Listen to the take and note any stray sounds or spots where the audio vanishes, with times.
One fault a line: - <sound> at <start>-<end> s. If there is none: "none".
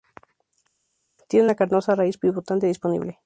none